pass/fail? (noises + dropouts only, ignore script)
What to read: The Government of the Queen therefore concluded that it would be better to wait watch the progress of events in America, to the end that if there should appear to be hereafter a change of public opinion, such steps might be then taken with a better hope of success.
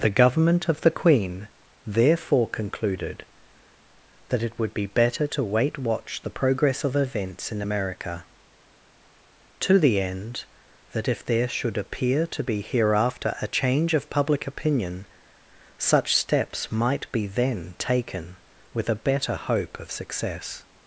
pass